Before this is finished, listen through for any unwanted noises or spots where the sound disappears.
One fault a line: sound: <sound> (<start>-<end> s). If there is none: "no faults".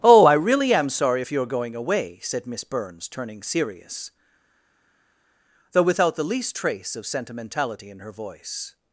no faults